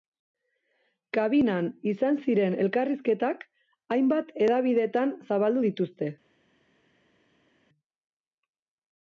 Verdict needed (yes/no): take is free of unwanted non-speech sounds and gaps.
yes